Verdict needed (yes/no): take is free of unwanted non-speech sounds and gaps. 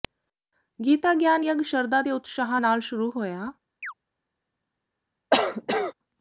no